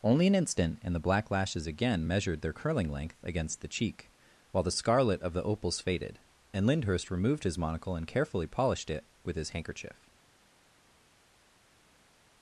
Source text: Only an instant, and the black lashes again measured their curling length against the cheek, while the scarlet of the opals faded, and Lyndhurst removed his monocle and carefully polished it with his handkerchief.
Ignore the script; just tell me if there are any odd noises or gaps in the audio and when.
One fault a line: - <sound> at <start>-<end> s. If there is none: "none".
none